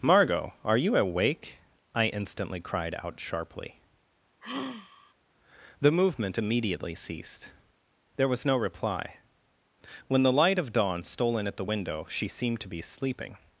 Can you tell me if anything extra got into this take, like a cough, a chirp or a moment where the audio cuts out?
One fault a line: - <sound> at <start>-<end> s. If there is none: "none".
- sigh at 4.4-5.1 s